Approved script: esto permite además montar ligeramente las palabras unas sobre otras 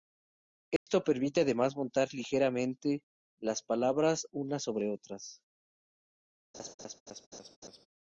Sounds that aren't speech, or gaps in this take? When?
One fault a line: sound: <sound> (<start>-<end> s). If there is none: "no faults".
sound: dropout (0.8-0.9 s)
sound: laugh (6.5-7.9 s)